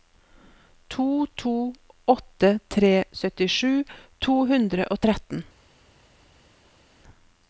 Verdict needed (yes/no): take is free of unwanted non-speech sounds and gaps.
yes